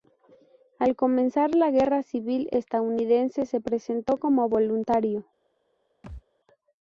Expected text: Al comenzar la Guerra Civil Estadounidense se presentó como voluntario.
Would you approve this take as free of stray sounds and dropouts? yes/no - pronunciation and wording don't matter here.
no